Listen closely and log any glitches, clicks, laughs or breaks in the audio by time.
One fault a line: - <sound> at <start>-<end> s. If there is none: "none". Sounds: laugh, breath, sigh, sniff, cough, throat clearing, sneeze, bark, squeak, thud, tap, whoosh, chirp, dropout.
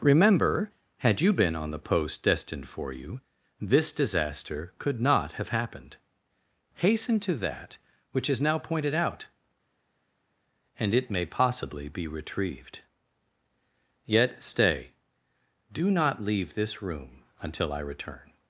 none